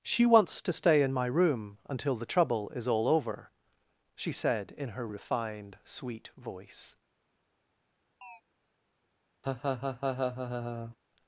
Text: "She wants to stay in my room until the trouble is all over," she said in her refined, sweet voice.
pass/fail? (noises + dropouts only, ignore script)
fail